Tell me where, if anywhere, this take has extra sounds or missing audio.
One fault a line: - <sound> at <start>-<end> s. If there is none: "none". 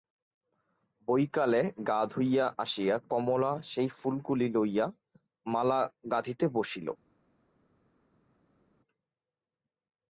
none